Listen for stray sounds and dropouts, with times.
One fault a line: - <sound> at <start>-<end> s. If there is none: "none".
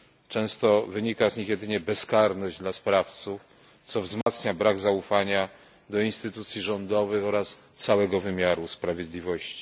- dropout at 4.2-4.3 s